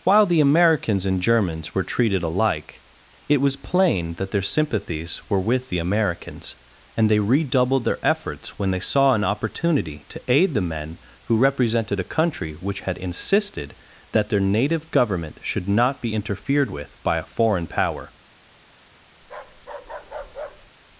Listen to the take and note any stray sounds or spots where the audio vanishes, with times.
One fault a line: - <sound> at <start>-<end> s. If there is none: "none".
- bark at 19.2-20.7 s